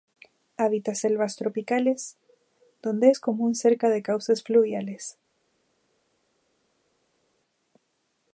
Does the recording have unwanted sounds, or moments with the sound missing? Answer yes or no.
no